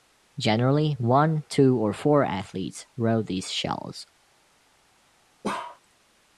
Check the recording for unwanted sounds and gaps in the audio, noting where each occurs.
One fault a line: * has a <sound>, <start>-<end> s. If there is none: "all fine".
* has a bark, 5.4-5.8 s